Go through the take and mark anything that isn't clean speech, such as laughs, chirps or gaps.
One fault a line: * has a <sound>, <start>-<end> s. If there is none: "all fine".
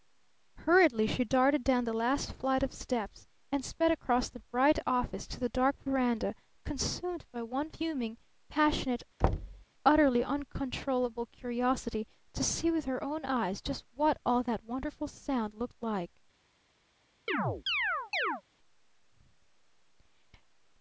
* has a thud, 9.2-9.6 s
* has a chirp, 17.3-18.4 s